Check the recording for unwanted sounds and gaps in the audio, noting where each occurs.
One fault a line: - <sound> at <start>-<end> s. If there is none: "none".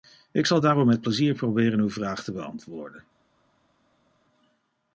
none